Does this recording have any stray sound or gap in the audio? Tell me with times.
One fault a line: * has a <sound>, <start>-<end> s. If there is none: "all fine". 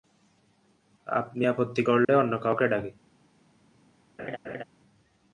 * has a dropout, 2.0-2.1 s
* has a laugh, 4.2-4.6 s